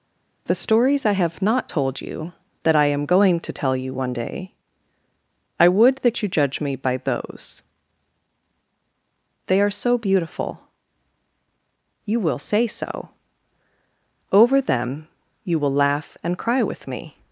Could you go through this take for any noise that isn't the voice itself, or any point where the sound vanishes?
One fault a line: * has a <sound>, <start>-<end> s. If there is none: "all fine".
all fine